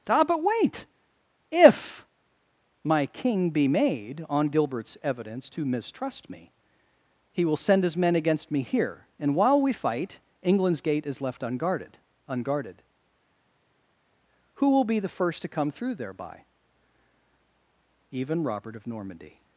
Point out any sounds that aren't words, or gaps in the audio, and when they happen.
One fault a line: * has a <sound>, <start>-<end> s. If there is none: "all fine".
all fine